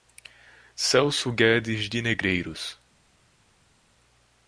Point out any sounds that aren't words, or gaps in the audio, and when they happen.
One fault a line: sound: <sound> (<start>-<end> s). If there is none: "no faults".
no faults